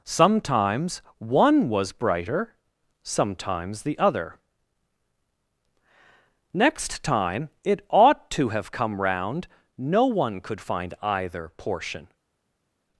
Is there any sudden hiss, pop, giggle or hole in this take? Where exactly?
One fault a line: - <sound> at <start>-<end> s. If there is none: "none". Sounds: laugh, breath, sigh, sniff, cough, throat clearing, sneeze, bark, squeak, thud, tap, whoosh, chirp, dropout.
none